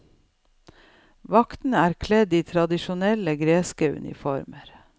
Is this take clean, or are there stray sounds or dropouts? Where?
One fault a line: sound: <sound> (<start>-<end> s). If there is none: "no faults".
no faults